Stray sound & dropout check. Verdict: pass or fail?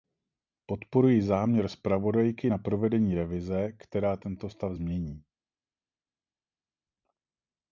pass